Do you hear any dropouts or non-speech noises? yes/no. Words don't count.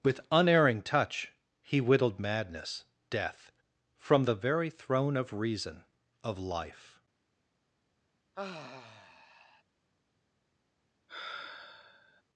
yes